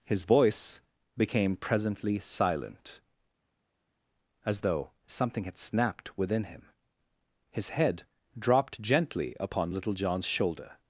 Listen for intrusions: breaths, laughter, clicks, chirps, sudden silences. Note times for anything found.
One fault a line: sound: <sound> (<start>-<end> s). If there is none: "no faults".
no faults